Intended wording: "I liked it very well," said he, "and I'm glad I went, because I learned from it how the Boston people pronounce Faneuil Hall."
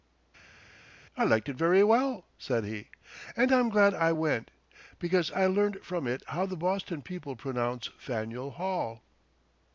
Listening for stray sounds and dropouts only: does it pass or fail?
pass